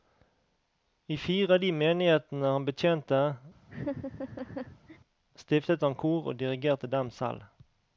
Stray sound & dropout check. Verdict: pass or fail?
fail